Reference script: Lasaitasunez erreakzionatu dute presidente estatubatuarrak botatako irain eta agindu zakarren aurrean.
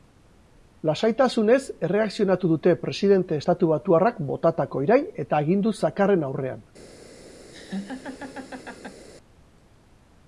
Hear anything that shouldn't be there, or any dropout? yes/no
yes